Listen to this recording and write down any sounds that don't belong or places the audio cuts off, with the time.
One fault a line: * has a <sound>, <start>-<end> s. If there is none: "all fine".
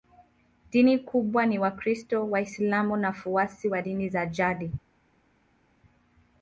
all fine